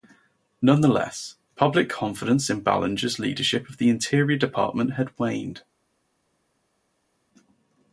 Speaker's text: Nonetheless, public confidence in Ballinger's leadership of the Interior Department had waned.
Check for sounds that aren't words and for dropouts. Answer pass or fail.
pass